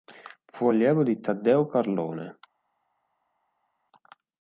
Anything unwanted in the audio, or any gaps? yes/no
no